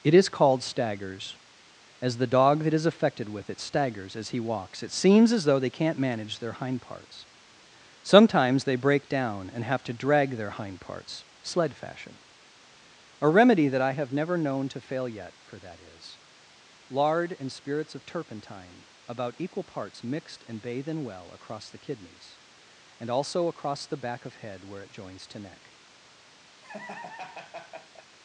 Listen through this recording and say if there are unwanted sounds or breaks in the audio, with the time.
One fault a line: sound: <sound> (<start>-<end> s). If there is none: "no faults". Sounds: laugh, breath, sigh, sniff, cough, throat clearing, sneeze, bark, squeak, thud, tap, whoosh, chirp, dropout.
sound: laugh (26.6-28.1 s)